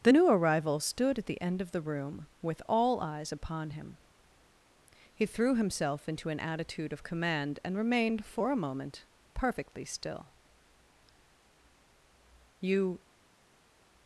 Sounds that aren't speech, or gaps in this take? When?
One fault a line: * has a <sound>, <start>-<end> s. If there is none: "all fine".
all fine